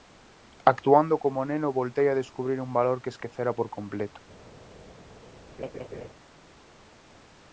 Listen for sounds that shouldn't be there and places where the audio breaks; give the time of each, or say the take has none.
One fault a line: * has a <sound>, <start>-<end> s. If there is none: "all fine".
* has a laugh, 5.6-6.1 s